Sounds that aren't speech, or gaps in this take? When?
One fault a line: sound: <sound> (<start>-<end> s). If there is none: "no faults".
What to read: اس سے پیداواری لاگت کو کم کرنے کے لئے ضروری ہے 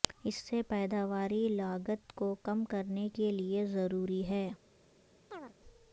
sound: chirp (5.3-5.5 s)